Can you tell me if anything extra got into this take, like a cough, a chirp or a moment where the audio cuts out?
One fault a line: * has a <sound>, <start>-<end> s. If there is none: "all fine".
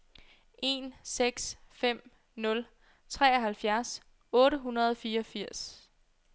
all fine